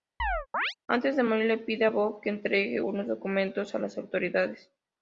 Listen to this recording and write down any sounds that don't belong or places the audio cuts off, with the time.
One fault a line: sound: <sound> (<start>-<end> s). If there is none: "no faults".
sound: chirp (0.2-0.7 s)